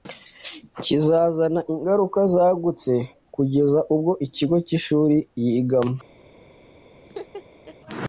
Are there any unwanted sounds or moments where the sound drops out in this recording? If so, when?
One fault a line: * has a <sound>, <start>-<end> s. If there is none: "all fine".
* has a laugh, 7.1-7.8 s